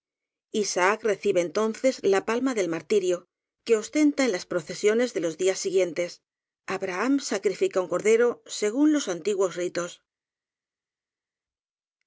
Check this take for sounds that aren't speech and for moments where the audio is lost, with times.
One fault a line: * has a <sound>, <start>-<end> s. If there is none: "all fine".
all fine